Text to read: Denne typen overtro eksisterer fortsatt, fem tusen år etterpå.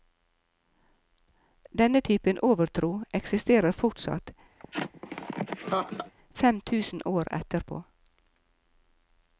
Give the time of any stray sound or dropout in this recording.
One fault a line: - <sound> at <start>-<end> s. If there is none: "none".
- laugh at 4.6-6.1 s